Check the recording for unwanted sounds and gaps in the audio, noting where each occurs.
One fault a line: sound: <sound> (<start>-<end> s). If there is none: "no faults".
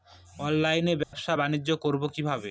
sound: dropout (1.0-1.1 s)